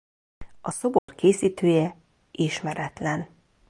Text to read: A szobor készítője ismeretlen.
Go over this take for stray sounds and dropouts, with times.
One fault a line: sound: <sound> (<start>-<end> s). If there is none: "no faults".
sound: dropout (1.0-1.1 s)